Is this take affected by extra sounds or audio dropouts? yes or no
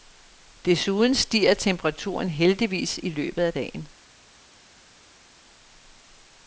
no